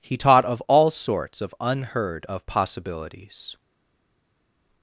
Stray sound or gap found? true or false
false